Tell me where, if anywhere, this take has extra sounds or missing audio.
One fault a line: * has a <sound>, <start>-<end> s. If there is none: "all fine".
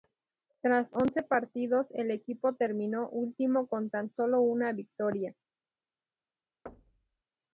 * has a thud, 6.7-7.2 s